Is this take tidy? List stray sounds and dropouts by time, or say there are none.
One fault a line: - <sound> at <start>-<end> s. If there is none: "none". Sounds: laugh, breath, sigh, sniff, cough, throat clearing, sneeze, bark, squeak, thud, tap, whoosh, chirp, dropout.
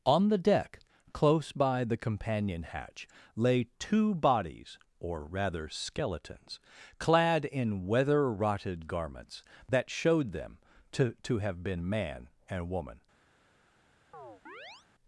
- chirp at 14.1-14.9 s